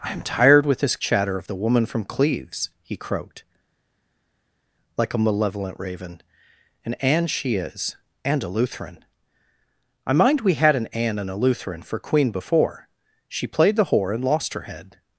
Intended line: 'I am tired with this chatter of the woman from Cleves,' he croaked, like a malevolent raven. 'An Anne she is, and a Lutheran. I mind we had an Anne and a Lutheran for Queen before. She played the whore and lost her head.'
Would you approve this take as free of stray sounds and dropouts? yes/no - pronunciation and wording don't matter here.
yes